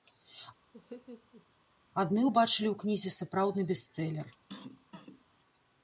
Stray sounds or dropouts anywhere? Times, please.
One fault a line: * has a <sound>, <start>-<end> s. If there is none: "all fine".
* has a laugh, 0.7-1.5 s
* has a cough, 4.5-5.2 s